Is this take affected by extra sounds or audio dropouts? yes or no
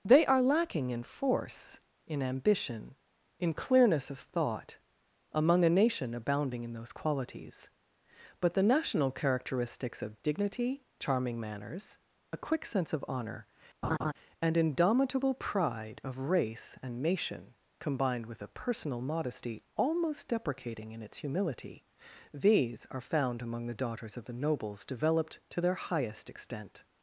yes